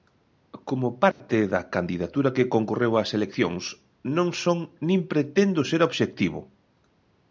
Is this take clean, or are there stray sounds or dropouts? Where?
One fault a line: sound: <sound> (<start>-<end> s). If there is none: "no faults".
sound: dropout (1.1-1.2 s)